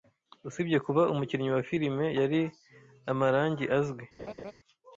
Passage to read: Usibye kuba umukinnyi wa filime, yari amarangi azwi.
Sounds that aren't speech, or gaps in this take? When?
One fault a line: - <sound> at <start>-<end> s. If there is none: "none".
- laugh at 4.2-4.5 s